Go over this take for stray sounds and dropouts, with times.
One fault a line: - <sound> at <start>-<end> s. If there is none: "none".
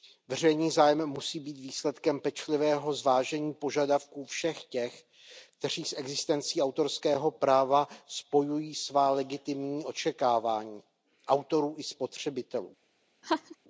- laugh at 13.2-13.6 s